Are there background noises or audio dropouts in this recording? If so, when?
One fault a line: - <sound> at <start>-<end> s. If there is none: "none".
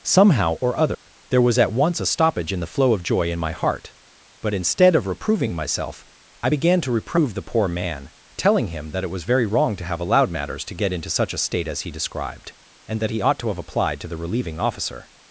- dropout at 0.9-1.1 s